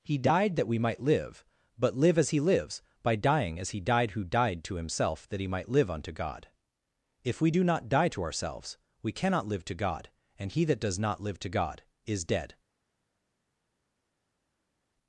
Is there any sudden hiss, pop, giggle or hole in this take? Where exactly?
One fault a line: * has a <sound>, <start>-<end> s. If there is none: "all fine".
all fine